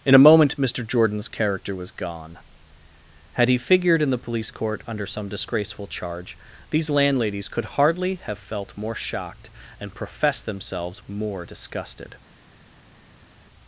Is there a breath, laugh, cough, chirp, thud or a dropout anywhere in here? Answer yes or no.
no